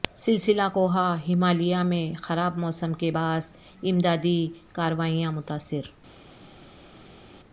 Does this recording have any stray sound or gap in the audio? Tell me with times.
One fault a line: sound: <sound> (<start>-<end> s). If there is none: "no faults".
no faults